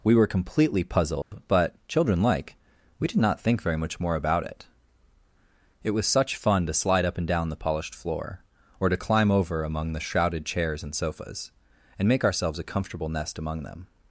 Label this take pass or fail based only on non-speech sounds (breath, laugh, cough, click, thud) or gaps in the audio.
fail